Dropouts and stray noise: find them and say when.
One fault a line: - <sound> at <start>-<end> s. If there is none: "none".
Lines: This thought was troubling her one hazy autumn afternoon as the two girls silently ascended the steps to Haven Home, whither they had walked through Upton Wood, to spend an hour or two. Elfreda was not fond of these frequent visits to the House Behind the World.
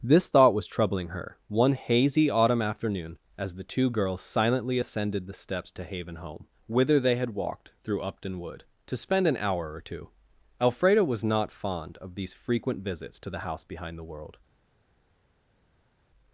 none